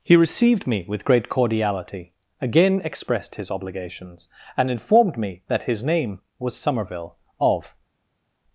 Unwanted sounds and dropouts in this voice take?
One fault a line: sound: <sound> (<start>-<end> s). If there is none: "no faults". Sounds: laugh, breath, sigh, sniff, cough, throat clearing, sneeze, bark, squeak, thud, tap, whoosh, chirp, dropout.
no faults